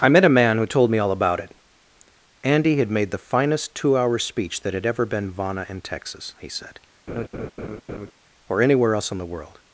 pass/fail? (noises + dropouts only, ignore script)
fail